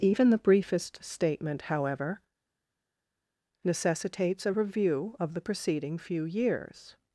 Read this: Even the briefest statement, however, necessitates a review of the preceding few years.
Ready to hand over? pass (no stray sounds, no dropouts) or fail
pass